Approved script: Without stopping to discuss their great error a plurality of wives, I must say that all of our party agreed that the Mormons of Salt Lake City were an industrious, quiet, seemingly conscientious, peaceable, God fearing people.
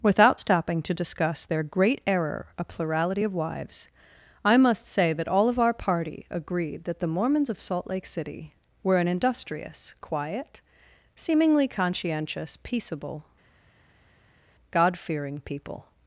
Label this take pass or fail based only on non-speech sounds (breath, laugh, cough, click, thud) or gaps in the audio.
pass